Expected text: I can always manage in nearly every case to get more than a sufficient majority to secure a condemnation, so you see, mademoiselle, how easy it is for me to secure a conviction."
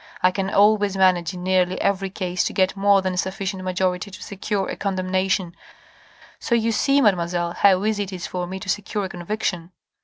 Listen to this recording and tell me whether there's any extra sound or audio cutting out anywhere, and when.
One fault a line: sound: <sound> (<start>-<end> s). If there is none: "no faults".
no faults